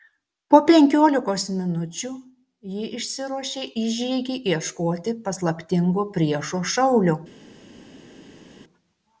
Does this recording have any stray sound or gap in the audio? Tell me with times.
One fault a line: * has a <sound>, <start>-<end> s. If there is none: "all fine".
all fine